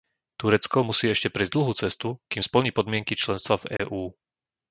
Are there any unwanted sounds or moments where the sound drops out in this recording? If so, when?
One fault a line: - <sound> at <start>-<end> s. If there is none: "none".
- dropout at 3.8-3.8 s